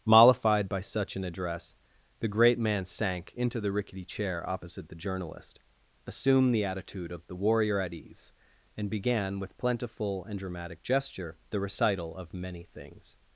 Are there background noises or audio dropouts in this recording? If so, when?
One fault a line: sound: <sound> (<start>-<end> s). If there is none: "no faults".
no faults